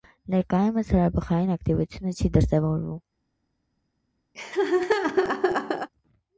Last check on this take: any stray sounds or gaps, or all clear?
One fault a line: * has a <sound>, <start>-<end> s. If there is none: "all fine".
* has a laugh, 4.3-5.9 s